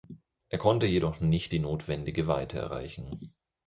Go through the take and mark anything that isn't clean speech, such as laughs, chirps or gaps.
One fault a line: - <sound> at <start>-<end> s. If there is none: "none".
none